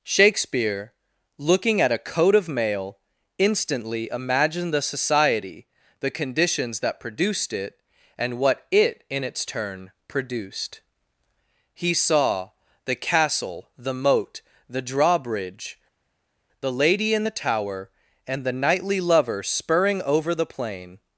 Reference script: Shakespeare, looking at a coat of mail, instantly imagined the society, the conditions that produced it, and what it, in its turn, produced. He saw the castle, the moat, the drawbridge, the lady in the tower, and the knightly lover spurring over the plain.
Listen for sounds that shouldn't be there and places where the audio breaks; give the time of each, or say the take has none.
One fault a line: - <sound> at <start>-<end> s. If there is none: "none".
none